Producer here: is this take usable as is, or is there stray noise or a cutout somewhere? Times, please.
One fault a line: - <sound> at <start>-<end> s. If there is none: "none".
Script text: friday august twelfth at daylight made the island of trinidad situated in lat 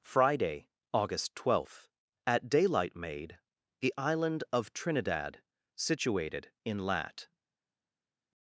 none